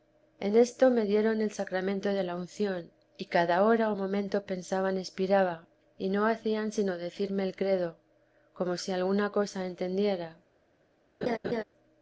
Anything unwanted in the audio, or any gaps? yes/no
yes